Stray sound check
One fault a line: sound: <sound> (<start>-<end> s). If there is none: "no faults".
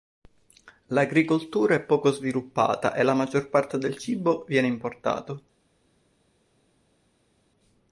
no faults